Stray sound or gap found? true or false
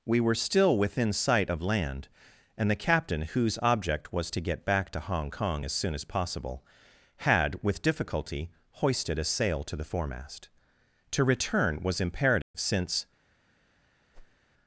true